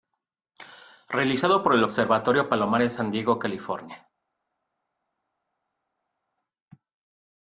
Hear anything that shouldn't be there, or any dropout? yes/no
no